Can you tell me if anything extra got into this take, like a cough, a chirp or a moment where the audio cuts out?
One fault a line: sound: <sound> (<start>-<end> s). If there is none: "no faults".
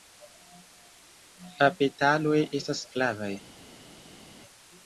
no faults